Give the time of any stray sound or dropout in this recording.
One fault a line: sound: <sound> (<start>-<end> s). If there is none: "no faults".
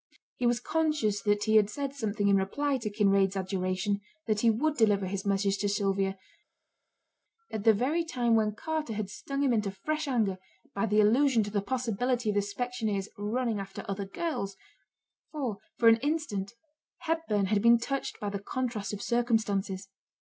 no faults